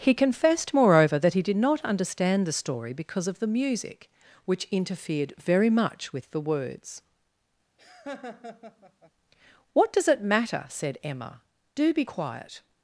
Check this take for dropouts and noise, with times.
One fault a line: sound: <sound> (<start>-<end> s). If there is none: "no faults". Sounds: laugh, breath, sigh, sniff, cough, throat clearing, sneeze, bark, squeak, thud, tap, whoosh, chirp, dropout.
sound: laugh (7.8-9.1 s)